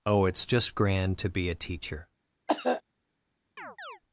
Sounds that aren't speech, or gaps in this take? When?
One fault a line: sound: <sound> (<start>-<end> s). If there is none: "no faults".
sound: cough (2.5-2.8 s)
sound: chirp (3.6-4.0 s)